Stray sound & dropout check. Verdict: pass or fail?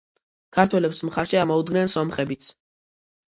pass